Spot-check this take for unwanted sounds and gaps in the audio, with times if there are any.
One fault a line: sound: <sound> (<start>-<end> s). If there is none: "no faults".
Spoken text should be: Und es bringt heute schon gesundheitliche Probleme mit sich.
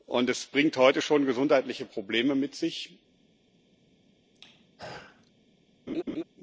sound: throat clearing (4.3-5.3 s)
sound: laugh (5.9-6.2 s)